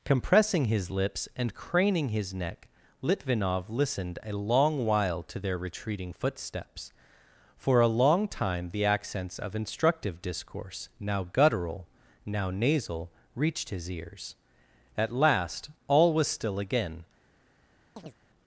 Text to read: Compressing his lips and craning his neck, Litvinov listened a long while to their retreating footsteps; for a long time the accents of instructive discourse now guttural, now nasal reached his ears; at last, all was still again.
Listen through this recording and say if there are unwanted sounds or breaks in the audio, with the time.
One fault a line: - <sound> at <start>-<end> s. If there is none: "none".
- chirp at 18.0-18.1 s